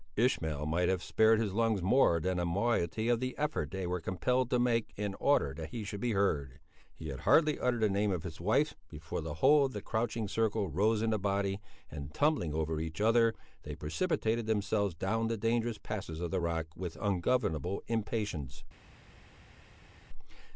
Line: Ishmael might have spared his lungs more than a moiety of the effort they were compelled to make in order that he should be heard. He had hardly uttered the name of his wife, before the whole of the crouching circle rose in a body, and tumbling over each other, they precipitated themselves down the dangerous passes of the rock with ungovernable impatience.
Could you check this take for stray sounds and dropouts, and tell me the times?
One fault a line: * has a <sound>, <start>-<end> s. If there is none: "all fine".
all fine